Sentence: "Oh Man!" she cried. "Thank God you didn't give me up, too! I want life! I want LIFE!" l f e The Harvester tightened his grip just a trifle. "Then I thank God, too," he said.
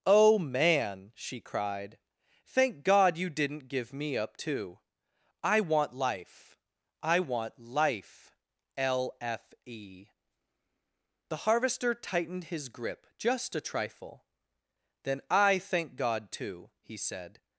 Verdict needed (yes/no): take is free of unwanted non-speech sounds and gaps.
yes